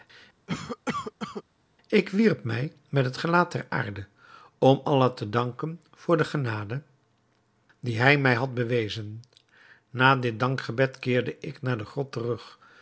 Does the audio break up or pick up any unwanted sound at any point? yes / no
yes